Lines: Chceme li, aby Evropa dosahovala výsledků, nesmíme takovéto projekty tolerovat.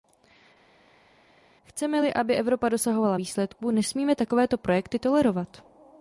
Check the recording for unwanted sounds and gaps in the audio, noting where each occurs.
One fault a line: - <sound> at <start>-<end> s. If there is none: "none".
none